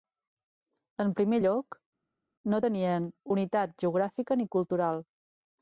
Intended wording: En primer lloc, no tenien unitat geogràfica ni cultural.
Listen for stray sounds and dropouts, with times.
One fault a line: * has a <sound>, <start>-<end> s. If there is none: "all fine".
all fine